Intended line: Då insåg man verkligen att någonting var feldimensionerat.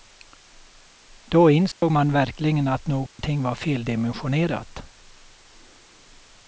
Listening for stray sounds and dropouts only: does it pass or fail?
fail